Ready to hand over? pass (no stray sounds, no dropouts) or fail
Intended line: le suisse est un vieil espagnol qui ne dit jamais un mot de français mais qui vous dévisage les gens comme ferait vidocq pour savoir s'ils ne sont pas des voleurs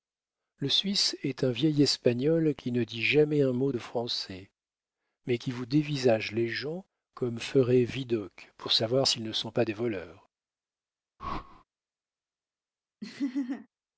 fail